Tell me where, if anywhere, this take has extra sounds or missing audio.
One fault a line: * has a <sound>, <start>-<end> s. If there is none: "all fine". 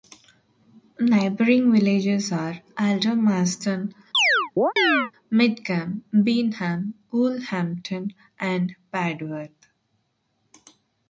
* has a chirp, 4.1-5.1 s